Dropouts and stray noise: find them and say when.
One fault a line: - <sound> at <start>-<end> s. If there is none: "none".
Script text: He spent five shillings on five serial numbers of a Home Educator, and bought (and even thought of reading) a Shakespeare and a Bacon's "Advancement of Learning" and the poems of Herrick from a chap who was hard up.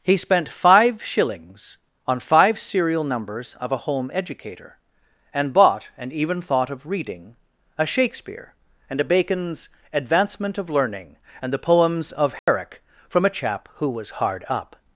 - dropout at 12.4-12.5 s